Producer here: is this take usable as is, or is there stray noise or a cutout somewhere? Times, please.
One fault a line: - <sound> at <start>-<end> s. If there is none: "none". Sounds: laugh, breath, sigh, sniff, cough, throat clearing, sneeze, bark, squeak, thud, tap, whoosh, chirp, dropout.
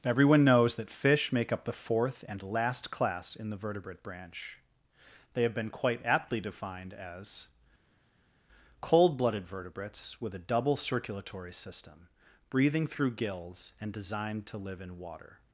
none